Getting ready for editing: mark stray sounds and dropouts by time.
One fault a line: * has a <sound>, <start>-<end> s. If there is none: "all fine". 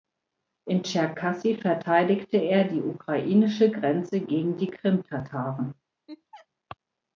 * has a laugh, 6.1-6.5 s